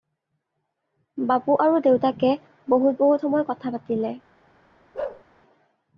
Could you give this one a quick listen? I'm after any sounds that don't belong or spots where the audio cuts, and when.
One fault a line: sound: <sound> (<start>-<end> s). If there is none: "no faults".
sound: bark (4.9-5.2 s)